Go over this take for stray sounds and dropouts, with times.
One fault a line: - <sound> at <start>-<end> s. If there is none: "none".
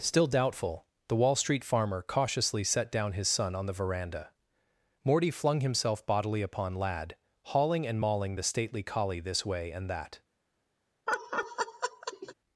- laugh at 11.1-12.3 s